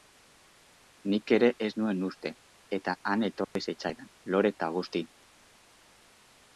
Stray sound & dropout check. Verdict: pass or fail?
fail